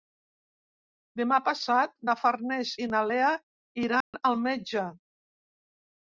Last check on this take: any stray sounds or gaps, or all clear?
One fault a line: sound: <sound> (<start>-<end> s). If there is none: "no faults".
sound: dropout (4.0-4.1 s)